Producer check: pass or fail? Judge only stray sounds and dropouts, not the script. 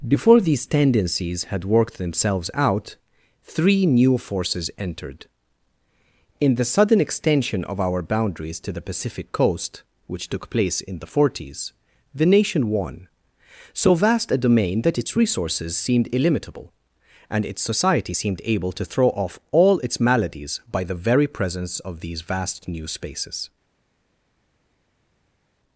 pass